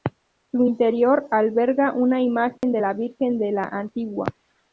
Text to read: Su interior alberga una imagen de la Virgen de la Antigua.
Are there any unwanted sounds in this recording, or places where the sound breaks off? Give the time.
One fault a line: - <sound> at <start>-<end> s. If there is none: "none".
- dropout at 2.6-2.6 s